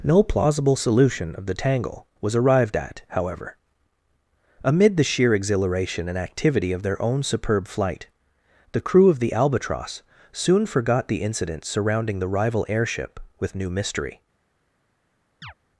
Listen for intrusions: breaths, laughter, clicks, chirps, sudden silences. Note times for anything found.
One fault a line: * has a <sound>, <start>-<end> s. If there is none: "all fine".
* has a chirp, 15.4-15.5 s